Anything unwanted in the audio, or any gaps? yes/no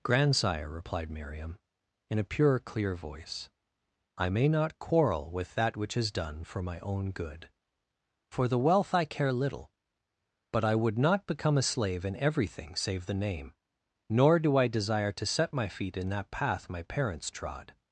no